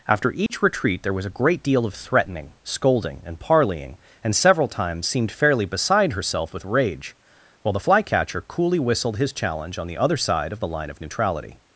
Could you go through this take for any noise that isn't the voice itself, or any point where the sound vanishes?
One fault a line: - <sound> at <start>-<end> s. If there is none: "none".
- dropout at 0.5-0.5 s